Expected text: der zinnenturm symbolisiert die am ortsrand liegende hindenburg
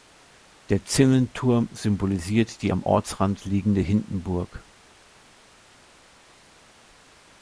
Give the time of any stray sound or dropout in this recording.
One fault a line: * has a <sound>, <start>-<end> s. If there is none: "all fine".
all fine